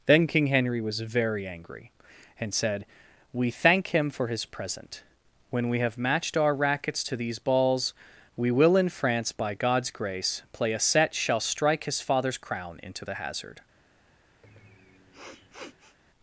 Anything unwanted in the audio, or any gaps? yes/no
yes